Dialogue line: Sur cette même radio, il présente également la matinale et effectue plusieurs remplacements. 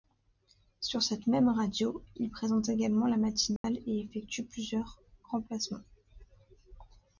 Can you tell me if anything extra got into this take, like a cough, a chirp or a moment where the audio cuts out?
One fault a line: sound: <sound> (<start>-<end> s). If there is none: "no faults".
sound: dropout (3.6-3.6 s)